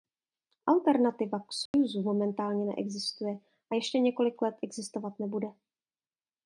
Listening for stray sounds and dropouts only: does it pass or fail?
fail